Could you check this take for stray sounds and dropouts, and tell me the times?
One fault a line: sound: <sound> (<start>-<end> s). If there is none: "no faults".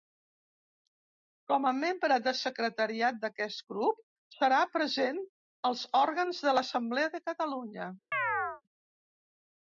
sound: chirp (8.1-8.6 s)